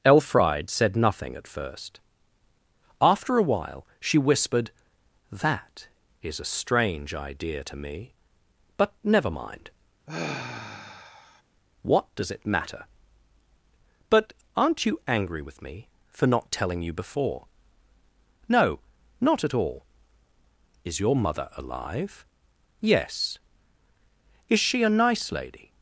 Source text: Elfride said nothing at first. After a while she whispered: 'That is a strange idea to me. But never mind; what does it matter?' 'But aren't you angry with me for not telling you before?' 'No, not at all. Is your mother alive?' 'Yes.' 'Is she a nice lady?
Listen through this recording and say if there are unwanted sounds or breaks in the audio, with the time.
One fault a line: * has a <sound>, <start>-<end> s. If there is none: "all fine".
* has a sigh, 10.1-11.4 s